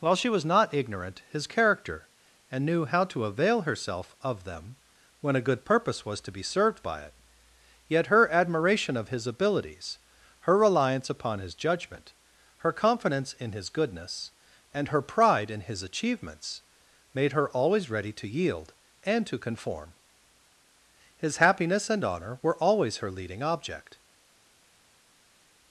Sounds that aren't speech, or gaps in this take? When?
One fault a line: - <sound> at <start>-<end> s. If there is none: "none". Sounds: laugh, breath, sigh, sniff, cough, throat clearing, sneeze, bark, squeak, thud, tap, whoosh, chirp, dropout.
none